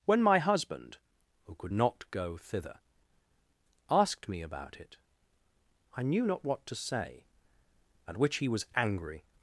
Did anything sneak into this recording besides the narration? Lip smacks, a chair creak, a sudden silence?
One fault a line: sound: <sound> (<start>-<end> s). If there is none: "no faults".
no faults